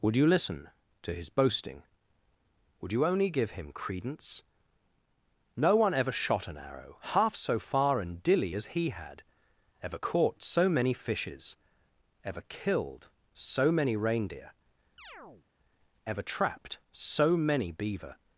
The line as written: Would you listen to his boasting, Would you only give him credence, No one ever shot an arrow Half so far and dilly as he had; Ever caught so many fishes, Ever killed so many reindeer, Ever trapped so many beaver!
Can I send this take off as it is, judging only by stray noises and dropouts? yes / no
no